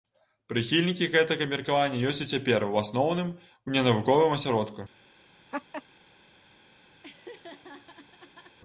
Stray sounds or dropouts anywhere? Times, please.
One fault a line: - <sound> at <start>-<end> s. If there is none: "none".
- laugh at 5.5-5.8 s
- laugh at 7.0-8.6 s